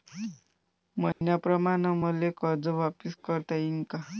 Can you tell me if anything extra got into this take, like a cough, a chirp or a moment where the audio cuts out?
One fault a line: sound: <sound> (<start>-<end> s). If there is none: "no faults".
sound: dropout (1.1-1.2 s)